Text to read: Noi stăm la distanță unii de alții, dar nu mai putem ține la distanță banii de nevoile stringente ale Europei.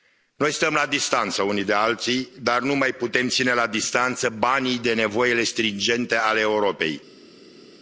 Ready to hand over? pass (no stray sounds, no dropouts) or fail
pass